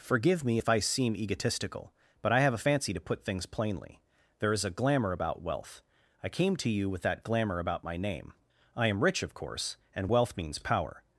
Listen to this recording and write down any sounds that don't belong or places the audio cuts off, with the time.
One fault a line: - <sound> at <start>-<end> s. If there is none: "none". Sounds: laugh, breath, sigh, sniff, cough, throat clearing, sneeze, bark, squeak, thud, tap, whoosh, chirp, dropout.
none